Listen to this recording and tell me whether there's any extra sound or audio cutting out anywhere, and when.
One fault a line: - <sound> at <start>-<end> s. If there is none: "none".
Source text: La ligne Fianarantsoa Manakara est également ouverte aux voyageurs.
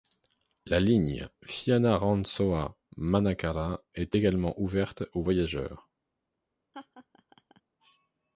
- laugh at 6.7-7.6 s